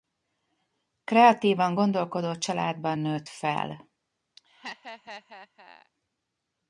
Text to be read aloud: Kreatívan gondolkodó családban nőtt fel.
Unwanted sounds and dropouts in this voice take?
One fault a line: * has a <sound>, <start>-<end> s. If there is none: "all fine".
* has a laugh, 4.4-5.9 s